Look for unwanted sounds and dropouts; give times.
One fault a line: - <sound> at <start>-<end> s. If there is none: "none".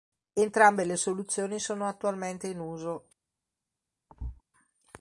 - thud at 4.1-4.4 s